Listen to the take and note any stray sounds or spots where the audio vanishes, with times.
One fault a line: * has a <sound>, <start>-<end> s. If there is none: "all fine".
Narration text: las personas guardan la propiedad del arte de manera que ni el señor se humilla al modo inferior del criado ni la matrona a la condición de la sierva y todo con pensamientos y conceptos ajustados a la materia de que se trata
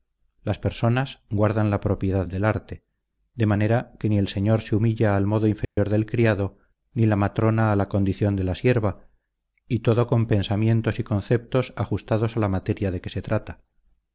* has a dropout, 5.6-5.8 s